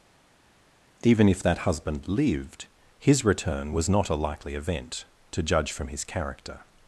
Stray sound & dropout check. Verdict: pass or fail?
pass